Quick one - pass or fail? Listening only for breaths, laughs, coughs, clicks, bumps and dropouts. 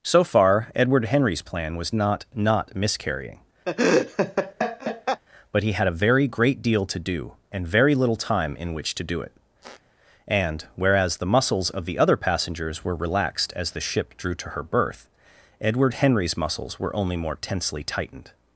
fail